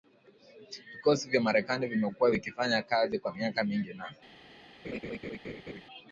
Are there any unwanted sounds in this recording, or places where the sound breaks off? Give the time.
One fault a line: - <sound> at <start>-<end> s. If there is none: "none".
- laugh at 4.8-5.8 s